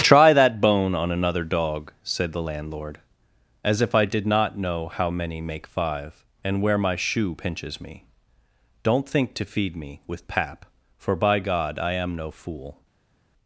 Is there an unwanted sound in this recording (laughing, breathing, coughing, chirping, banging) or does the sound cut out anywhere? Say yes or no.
no